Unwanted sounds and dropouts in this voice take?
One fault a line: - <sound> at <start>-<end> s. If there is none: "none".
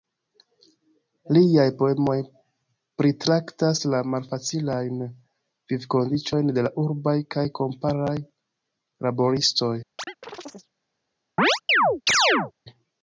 - chirp at 10.0-10.7 s
- chirp at 11.4-12.5 s